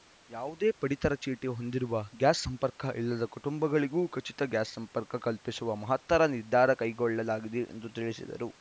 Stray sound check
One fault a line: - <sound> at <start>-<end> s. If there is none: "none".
none